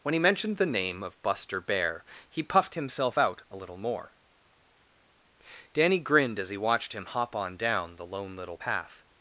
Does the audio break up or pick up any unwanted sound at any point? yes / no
no